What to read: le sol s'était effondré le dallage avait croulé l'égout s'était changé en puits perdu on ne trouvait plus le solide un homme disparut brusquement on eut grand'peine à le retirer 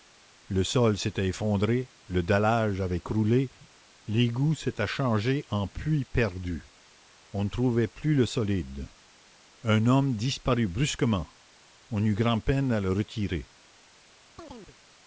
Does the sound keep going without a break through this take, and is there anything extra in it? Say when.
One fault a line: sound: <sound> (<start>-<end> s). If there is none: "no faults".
sound: chirp (14.4-14.8 s)